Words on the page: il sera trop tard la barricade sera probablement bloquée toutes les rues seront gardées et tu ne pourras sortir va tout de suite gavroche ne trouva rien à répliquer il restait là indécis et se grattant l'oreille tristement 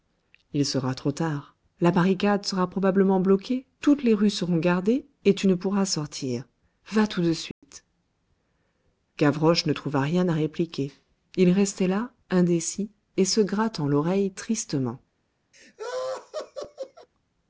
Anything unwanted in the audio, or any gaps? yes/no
yes